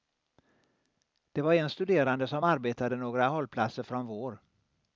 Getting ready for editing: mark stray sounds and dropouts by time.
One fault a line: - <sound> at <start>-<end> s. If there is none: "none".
none